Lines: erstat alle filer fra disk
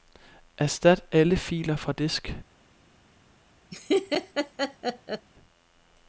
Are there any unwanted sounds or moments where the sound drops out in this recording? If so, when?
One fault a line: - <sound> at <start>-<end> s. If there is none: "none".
- laugh at 3.7-5.3 s